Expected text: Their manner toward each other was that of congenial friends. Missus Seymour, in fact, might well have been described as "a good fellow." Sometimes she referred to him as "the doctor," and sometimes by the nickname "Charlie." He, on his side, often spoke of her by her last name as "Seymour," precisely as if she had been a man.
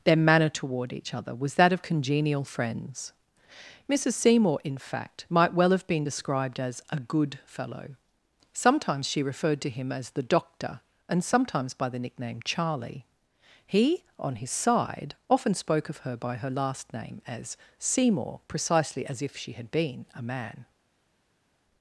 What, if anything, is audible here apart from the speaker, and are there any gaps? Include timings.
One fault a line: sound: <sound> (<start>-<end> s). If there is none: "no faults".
no faults